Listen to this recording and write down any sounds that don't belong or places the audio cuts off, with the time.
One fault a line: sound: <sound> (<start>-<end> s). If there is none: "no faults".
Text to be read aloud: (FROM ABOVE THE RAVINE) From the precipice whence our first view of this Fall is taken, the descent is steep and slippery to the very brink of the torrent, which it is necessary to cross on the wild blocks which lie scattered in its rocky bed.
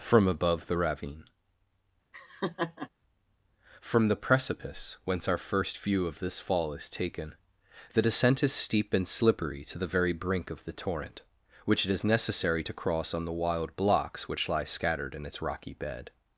sound: laugh (2.1-2.9 s)